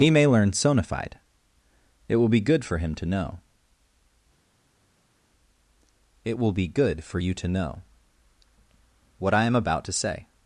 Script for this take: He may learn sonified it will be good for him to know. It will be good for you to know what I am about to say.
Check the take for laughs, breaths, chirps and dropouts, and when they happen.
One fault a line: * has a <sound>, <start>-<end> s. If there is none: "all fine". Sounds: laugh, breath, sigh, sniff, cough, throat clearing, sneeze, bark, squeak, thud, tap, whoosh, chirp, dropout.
all fine